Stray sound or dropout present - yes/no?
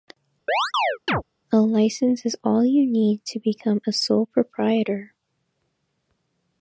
yes